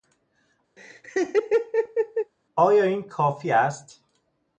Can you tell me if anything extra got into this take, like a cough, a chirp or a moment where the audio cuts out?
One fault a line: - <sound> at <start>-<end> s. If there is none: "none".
- laugh at 0.8-2.3 s